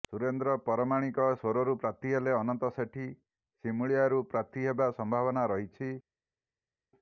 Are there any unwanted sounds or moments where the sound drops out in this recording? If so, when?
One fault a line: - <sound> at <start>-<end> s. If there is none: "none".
none